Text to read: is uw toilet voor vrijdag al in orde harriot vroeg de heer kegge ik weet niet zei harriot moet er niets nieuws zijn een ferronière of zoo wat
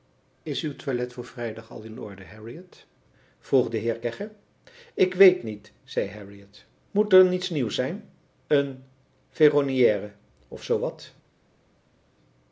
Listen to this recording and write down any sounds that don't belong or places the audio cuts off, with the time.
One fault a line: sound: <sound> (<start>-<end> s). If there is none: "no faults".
no faults